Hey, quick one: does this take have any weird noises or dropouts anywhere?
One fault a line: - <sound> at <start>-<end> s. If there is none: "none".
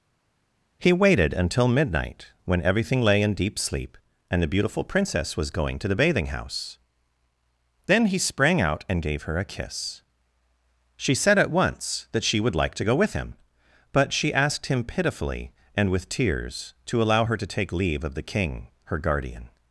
none